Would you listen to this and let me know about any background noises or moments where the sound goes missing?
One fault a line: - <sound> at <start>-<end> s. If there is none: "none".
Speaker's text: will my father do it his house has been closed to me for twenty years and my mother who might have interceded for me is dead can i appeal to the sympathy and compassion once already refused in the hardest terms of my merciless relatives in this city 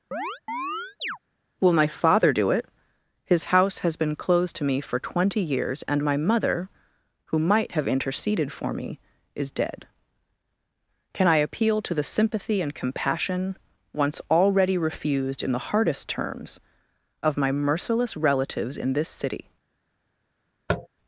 - chirp at 0.1-1.2 s
- tap at 20.7-20.9 s